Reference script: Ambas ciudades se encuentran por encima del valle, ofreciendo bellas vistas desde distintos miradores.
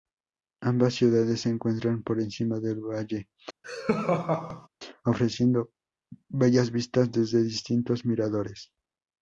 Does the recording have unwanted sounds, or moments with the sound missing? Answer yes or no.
yes